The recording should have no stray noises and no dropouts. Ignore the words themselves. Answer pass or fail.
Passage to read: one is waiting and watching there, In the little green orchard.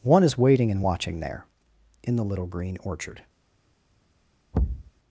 fail